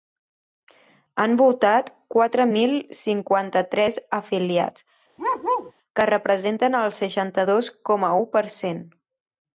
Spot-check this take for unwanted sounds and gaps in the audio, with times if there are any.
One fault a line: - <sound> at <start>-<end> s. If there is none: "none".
- bark at 5.2-5.7 s